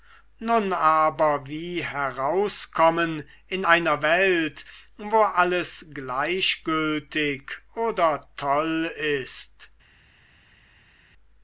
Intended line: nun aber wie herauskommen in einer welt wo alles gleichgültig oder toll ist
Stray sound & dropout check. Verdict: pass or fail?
pass